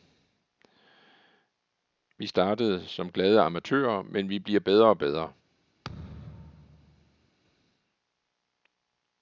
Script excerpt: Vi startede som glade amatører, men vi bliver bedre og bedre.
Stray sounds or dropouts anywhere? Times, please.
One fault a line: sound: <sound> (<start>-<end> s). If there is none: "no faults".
sound: thud (5.8-7.3 s)